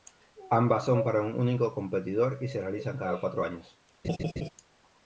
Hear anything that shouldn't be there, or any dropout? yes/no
yes